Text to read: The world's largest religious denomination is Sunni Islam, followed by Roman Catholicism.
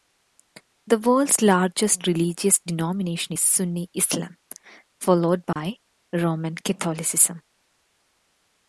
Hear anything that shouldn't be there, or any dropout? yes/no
yes